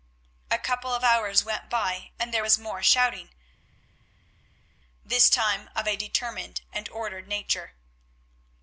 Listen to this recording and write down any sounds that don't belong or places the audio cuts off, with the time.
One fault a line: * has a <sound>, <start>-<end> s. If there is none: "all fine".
all fine